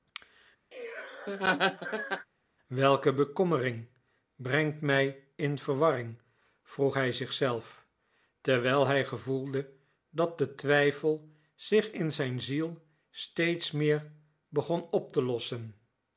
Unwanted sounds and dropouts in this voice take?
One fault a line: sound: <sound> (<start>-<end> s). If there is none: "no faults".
sound: laugh (0.7-2.3 s)